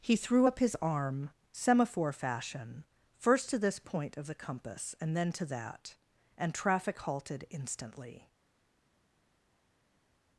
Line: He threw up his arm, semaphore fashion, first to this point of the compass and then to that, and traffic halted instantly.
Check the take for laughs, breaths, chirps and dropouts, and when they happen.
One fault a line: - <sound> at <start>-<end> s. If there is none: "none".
none